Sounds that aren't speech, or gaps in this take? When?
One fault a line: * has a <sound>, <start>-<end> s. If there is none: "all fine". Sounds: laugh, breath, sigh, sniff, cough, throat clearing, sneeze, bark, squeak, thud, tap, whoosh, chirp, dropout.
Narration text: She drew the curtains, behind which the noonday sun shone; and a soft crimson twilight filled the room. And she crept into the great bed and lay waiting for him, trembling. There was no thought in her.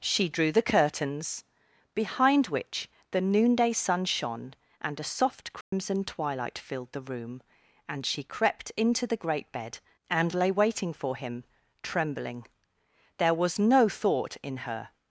* has a dropout, 5.6-5.7 s